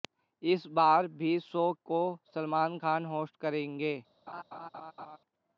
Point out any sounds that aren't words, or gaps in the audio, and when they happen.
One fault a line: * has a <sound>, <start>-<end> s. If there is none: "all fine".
* has a laugh, 4.3-5.2 s